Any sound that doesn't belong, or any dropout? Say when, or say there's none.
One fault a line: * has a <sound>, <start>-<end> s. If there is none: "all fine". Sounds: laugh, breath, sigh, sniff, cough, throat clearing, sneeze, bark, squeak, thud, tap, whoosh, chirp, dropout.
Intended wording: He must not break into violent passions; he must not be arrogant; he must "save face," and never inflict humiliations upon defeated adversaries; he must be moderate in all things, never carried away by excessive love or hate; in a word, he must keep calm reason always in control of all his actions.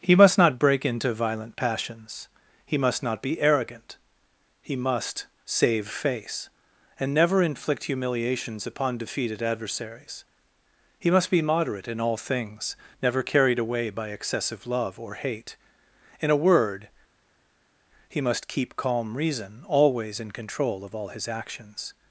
all fine